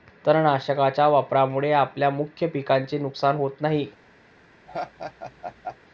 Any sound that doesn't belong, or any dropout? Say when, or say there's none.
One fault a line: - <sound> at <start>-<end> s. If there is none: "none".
- laugh at 4.7-5.8 s